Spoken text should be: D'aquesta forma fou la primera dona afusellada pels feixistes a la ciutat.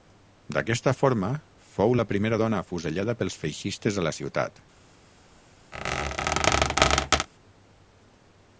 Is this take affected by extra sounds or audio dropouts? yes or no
yes